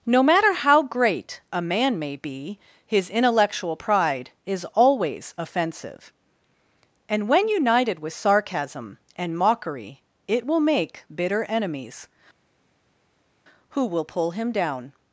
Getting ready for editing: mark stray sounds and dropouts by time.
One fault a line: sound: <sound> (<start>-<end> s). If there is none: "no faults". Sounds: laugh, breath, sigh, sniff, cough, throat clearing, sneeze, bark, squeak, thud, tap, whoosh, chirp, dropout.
no faults